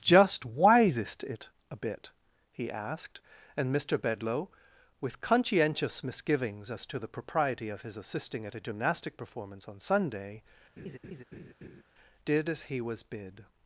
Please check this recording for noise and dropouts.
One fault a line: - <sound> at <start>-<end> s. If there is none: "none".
- laugh at 10.8-11.8 s